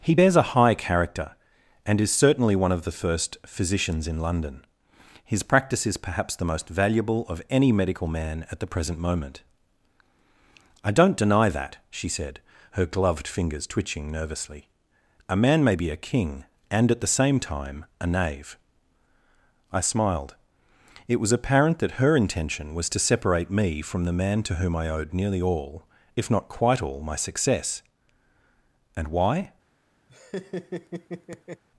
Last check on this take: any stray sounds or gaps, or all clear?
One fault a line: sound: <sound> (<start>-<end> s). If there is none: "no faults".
sound: laugh (30.1-31.6 s)